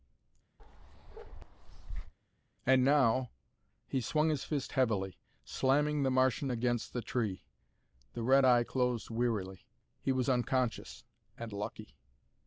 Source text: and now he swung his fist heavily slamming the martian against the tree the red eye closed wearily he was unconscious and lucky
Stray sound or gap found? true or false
true